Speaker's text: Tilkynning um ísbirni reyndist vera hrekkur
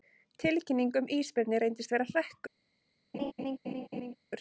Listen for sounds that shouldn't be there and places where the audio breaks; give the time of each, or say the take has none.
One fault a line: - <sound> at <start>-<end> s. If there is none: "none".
- laugh at 3.1-4.2 s